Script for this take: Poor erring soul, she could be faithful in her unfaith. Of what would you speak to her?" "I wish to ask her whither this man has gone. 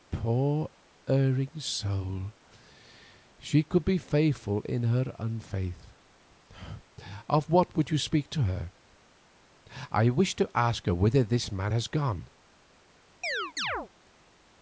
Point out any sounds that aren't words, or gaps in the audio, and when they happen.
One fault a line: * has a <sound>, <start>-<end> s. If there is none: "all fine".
* has a chirp, 13.2-13.9 s